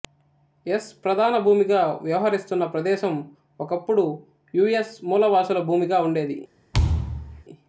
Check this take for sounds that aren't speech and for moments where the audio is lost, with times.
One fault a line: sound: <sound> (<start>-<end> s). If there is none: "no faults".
sound: thud (6.7-7.4 s)